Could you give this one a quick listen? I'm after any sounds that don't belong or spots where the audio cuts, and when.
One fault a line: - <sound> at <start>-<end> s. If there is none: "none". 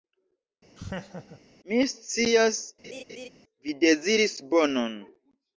- laugh at 0.8-1.4 s
- laugh at 2.8-3.3 s